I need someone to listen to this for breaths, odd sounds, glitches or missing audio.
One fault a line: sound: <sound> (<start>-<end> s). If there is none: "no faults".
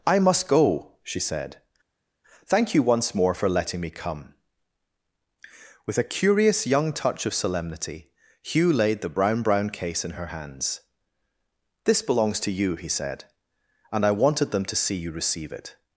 no faults